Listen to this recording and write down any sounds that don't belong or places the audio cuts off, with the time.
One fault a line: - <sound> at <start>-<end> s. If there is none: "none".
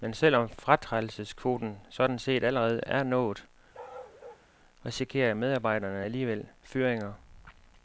- bark at 3.7-4.5 s